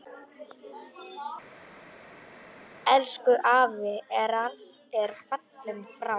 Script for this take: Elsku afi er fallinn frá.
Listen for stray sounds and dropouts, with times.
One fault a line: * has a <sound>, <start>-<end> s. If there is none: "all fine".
all fine